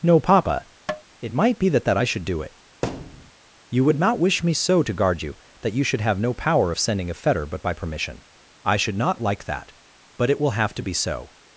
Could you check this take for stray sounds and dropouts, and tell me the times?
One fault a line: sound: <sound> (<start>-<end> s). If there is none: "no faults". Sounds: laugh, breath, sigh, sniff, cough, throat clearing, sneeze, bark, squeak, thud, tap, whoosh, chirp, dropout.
sound: tap (0.9-1.0 s)
sound: thud (2.8-3.3 s)